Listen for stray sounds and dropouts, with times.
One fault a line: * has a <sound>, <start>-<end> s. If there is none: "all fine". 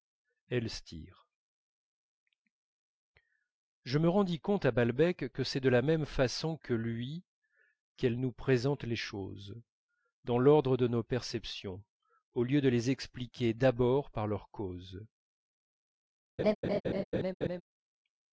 * has a laugh, 16.4-17.6 s